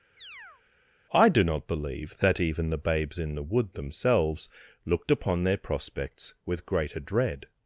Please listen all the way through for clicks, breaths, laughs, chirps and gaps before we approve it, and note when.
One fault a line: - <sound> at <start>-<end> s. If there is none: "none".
- chirp at 0.2-0.6 s